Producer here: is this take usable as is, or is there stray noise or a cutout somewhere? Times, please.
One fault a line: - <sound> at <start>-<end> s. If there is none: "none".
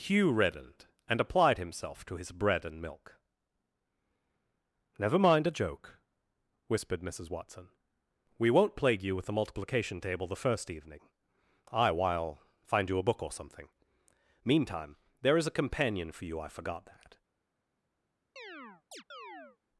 - chirp at 18.4-19.6 s